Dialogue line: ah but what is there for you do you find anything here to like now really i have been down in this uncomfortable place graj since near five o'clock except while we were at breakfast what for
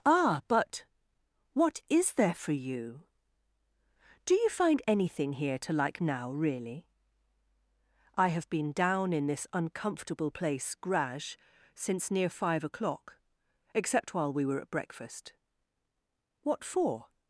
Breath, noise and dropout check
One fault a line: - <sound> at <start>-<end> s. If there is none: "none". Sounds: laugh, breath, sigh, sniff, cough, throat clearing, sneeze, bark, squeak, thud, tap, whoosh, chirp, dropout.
none